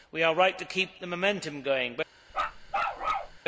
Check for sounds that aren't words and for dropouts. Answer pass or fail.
fail